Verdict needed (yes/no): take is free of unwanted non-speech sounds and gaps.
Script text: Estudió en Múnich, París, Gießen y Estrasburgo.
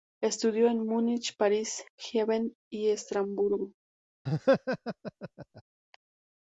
no